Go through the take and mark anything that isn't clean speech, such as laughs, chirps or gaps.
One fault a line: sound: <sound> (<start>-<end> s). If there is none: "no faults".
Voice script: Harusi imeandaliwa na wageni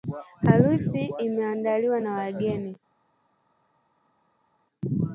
no faults